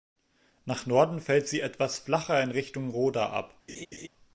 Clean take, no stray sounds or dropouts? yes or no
no